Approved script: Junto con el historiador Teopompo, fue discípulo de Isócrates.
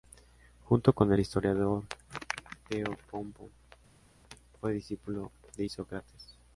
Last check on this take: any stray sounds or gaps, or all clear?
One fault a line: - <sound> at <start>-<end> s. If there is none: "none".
none